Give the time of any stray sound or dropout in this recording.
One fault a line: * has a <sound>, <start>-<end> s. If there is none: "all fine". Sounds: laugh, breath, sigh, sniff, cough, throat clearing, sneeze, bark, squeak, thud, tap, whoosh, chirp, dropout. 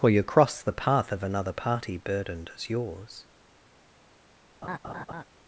* has a laugh, 4.6-5.2 s